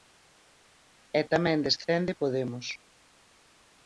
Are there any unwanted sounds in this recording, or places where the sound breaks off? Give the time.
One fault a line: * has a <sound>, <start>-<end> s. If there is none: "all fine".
all fine